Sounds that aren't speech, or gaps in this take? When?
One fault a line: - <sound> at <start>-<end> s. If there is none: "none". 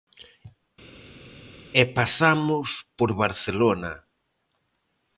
none